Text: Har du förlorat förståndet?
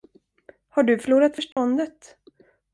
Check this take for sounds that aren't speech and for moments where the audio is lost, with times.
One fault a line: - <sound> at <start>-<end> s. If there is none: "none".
- dropout at 1.5-1.6 s